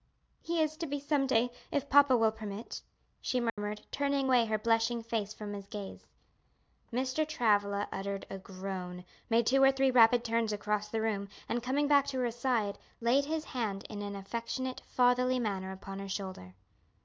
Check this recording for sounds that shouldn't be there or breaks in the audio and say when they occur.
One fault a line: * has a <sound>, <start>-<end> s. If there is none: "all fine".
* has a dropout, 3.5-3.6 s